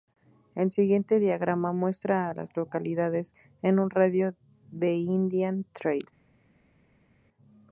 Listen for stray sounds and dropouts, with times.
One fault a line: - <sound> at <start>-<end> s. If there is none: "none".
none